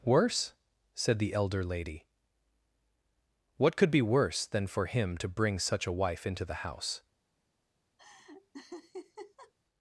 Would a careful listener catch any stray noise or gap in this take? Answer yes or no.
yes